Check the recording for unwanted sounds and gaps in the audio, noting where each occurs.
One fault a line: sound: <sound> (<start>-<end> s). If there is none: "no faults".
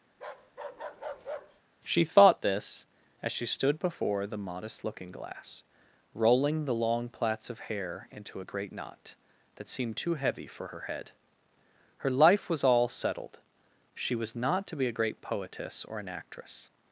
sound: bark (0.1-1.6 s)